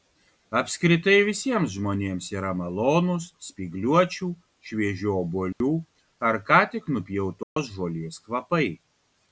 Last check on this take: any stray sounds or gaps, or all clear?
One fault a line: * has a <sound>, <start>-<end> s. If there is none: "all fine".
* has a dropout, 5.5-5.6 s
* has a dropout, 7.4-7.6 s